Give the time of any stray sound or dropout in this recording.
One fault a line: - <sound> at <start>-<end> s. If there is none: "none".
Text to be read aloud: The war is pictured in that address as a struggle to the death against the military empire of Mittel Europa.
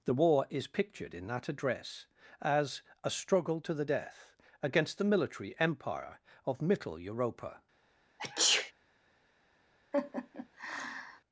- sneeze at 8.2-8.7 s
- laugh at 9.9-11.2 s